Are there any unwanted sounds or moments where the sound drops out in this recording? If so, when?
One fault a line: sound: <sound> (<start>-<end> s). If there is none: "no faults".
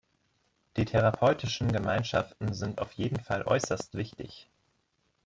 no faults